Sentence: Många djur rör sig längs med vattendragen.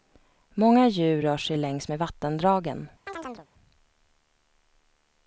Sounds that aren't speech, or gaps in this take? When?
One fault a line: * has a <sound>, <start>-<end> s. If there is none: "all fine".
* has a chirp, 3.1-3.5 s